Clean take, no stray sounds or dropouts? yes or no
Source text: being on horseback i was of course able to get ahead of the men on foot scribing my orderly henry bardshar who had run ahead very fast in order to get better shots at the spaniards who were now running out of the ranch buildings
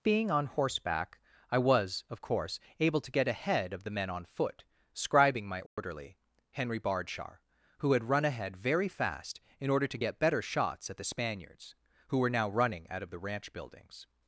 no